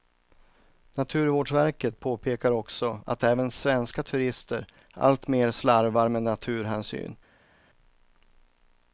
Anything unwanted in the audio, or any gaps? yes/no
no